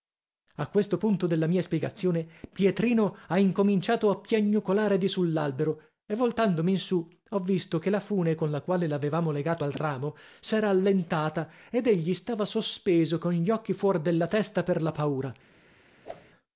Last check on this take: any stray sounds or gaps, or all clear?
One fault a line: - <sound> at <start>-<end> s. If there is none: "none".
- whoosh at 16.0-16.3 s